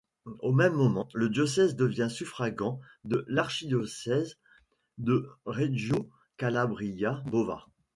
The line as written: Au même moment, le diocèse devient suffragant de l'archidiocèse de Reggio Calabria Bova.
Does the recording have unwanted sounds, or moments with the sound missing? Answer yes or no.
no